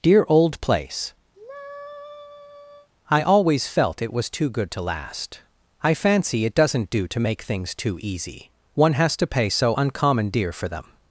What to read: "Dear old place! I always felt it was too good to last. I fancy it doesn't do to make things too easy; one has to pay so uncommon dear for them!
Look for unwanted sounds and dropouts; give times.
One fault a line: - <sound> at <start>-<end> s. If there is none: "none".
- sigh at 1.3-2.9 s